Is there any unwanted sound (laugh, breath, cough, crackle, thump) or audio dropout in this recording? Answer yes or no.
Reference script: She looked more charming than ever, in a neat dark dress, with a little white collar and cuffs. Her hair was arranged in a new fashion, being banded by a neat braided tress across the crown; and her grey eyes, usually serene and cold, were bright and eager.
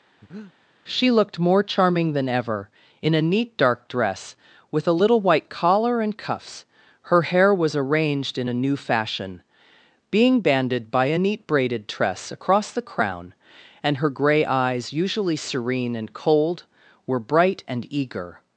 yes